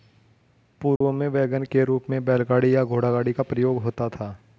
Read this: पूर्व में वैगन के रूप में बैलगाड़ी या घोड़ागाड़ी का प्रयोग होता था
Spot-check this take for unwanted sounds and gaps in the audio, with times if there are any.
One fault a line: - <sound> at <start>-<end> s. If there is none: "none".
- dropout at 1.0-1.0 s